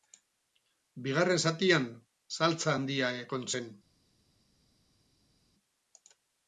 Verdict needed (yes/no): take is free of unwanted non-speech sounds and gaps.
yes